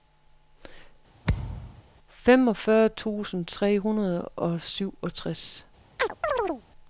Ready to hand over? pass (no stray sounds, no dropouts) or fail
fail